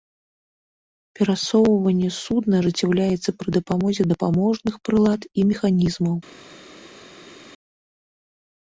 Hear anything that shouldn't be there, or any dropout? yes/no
no